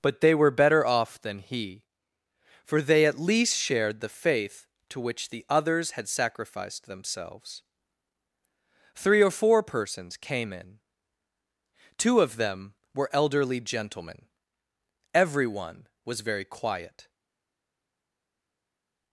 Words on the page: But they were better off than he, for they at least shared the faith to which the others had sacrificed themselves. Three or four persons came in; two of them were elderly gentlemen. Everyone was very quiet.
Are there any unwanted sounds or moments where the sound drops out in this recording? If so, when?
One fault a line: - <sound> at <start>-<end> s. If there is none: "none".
none